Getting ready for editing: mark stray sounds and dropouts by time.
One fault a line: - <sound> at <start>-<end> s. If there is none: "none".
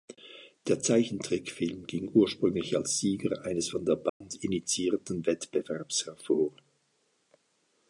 - dropout at 4.1-4.2 s